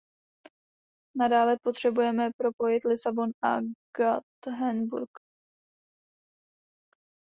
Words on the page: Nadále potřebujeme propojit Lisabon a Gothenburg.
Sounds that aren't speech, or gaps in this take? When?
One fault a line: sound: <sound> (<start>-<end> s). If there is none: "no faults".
no faults